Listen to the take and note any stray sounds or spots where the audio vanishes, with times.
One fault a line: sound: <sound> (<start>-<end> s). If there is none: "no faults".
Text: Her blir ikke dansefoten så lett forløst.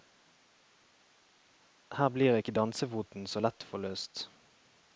no faults